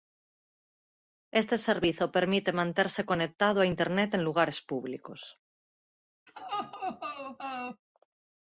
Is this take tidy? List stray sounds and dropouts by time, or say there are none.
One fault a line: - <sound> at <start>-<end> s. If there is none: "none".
- laugh at 6.3-7.8 s